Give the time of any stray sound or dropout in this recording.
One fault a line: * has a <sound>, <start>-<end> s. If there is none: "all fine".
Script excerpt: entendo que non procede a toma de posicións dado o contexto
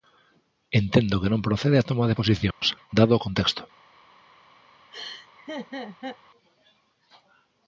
* has a dropout, 2.5-2.6 s
* has a laugh, 4.9-6.2 s